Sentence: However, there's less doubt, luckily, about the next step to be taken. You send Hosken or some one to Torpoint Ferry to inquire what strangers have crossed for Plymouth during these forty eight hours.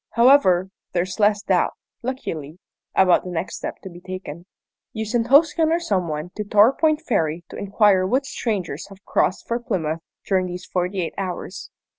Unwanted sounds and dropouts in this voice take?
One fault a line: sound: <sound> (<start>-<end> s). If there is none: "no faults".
no faults